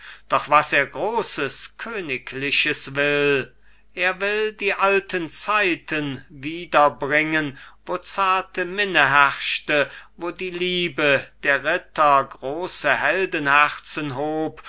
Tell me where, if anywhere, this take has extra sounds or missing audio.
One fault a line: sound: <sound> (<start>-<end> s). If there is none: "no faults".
no faults